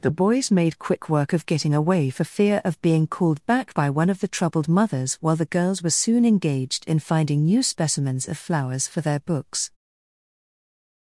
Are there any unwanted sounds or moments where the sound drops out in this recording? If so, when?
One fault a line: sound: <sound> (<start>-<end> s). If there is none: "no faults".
no faults